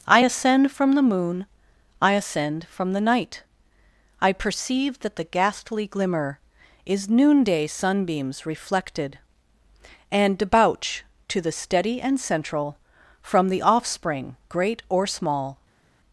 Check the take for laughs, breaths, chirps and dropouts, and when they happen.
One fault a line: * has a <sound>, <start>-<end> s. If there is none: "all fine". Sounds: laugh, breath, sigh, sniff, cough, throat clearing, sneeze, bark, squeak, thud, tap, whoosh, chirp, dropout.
all fine